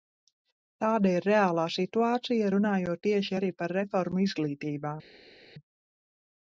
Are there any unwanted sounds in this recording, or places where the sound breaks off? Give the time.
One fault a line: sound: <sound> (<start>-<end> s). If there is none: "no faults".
no faults